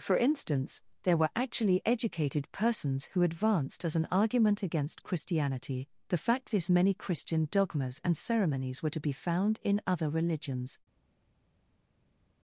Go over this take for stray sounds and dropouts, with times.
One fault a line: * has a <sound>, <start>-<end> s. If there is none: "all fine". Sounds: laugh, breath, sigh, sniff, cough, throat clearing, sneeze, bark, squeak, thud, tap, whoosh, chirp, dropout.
all fine